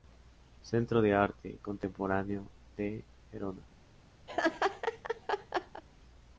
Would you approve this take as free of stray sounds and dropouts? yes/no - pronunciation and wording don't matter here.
no